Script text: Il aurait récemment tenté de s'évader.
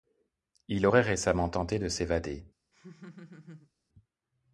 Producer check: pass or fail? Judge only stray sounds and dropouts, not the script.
fail